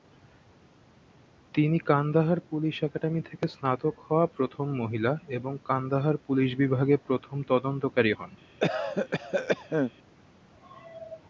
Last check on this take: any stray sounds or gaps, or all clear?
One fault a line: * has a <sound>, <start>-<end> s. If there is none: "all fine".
* has a cough, 8.6-9.9 s